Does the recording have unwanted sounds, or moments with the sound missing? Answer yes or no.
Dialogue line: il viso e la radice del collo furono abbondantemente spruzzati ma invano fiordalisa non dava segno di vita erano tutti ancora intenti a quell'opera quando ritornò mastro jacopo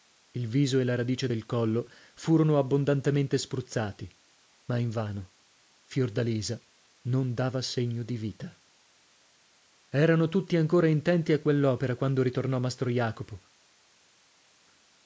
no